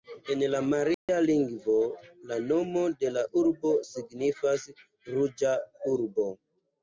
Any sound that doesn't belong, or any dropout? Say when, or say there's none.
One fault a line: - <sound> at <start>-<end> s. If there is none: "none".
- dropout at 0.9-1.1 s